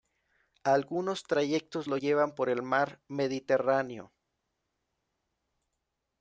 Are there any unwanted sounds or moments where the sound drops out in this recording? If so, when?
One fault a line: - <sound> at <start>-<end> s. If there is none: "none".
none